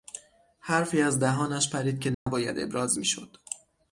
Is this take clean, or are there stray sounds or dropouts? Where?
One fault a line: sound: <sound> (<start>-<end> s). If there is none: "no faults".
sound: dropout (2.1-2.3 s)